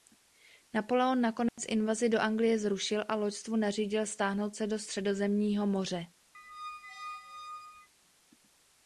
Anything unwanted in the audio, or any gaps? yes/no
yes